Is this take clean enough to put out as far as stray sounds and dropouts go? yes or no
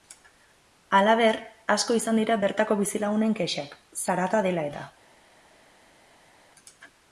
yes